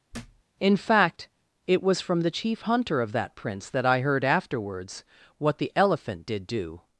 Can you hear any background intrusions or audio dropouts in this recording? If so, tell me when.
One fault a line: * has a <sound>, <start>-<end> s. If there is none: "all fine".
* has a thud, 0.1-0.4 s